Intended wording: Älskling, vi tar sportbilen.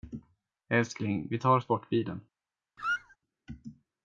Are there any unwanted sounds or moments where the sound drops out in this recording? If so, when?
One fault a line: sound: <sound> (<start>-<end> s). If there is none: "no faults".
sound: squeak (2.8-3.2 s)